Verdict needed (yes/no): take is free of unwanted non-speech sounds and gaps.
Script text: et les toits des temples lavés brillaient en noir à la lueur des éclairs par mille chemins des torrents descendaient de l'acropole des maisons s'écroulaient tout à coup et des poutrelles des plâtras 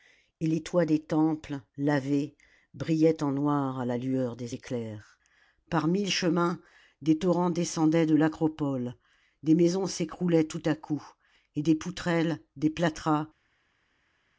yes